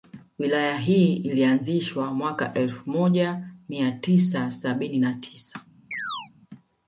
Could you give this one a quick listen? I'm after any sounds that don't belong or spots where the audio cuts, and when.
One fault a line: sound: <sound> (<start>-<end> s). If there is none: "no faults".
sound: chirp (5.9-6.3 s)